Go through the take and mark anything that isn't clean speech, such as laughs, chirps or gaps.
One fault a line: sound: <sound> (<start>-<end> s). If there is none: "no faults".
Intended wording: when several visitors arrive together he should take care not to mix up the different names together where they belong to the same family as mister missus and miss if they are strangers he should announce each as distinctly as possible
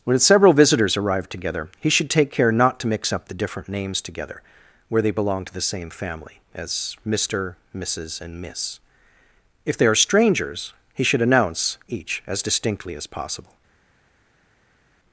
no faults